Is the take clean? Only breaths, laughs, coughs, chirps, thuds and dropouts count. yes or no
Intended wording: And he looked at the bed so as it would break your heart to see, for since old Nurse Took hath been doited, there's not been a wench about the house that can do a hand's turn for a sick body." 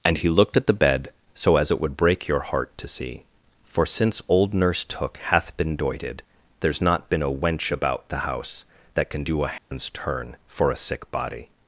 no